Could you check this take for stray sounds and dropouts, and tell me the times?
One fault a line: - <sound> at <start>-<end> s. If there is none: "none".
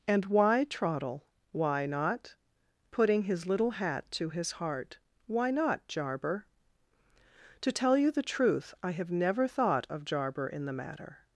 none